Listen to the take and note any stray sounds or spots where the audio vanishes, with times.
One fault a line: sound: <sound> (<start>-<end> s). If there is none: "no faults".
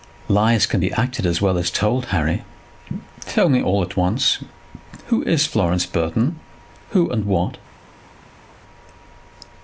no faults